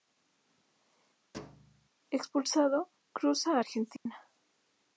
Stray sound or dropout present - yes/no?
yes